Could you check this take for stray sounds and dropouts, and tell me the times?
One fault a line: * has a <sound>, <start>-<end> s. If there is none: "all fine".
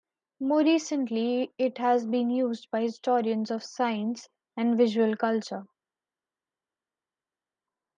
all fine